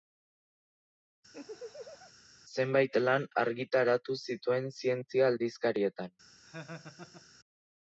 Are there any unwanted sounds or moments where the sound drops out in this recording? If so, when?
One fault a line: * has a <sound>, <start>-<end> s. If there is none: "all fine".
* has a laugh, 1.3-2.1 s
* has a laugh, 6.4-7.3 s